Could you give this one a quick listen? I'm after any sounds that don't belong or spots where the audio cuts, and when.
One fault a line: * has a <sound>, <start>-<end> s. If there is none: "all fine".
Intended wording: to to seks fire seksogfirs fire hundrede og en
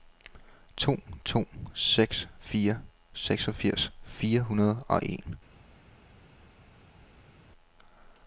all fine